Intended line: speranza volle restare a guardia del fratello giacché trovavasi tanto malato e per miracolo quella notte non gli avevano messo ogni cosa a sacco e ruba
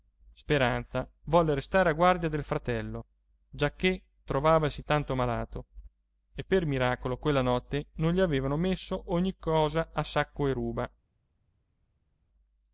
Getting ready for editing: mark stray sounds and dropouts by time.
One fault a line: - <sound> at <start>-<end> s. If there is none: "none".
none